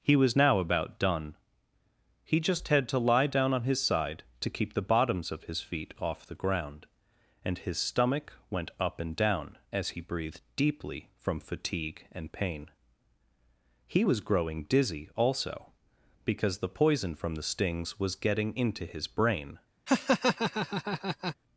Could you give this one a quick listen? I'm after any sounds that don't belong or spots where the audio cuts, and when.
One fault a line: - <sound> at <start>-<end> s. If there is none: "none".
- laugh at 19.9-21.4 s